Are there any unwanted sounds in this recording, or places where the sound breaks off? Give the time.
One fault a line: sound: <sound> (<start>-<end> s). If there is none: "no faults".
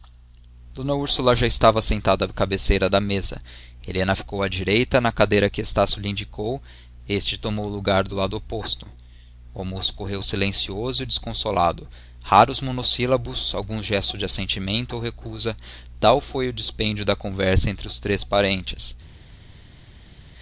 no faults